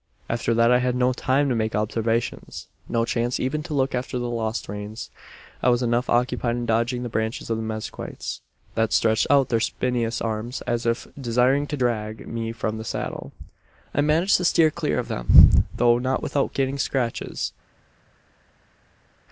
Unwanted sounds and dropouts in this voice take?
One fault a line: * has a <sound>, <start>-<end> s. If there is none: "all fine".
all fine